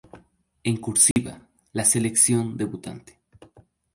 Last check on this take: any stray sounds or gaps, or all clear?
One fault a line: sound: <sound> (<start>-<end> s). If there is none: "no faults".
sound: dropout (1.1-1.2 s)